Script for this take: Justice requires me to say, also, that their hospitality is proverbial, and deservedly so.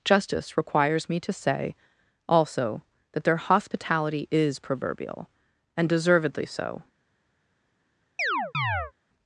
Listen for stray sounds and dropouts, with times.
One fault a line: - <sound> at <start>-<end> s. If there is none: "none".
- chirp at 8.2-8.9 s